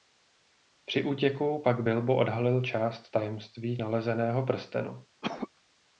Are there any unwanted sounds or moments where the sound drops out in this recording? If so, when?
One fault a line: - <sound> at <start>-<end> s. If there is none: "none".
- cough at 5.2-5.5 s